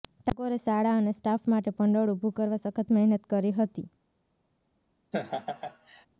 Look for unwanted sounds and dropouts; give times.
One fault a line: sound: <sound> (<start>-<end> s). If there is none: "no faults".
sound: laugh (5.1-6.1 s)